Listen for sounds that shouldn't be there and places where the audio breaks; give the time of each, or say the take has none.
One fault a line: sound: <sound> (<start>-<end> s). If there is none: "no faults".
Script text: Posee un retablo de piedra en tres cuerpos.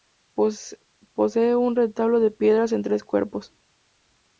no faults